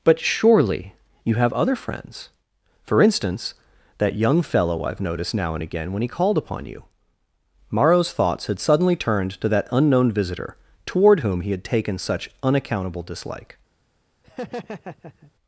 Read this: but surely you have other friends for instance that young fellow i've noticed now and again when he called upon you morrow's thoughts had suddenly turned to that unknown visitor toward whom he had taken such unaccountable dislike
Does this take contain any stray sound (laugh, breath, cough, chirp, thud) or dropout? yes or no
yes